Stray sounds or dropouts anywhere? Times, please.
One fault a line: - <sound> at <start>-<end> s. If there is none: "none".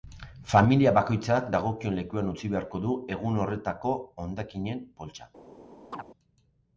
- chirp at 5.9-6.0 s